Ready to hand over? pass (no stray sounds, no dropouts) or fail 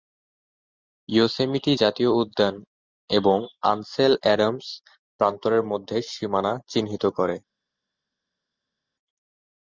pass